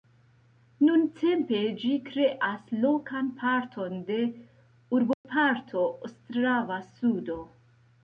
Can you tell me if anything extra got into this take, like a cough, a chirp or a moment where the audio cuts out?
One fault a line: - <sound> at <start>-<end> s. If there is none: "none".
- dropout at 5.1-5.2 s